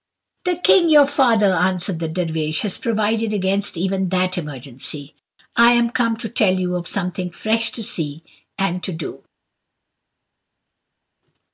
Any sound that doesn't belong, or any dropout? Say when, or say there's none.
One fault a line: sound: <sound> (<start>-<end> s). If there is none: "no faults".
no faults